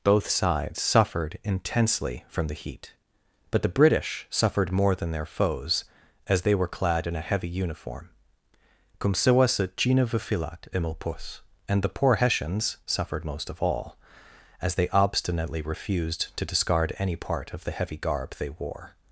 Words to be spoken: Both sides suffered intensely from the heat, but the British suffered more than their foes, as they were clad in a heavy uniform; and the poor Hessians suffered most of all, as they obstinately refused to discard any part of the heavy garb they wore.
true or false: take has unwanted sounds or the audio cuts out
false